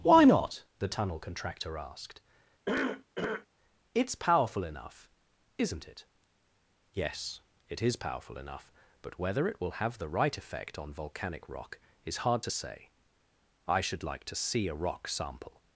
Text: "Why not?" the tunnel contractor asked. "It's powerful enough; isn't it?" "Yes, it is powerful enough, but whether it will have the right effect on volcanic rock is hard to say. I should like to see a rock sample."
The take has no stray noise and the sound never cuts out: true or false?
false